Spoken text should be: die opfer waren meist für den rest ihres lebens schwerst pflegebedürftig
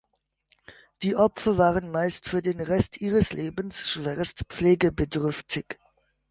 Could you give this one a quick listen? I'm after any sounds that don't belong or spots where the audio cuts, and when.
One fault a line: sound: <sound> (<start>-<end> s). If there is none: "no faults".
no faults